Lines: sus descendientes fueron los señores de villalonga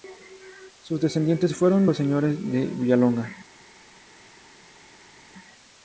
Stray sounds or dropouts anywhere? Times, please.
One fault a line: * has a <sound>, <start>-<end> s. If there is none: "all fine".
all fine